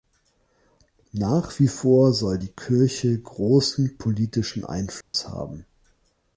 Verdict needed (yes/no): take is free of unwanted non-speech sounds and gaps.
no